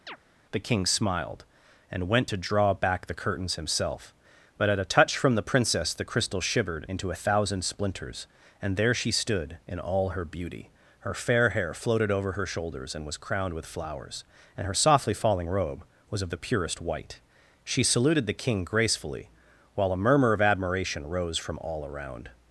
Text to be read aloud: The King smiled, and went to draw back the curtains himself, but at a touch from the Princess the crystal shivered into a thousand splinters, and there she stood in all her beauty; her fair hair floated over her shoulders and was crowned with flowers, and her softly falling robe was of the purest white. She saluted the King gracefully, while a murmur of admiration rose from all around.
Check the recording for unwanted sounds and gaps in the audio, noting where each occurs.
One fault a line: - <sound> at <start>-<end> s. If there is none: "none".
- chirp at 0.1-0.2 s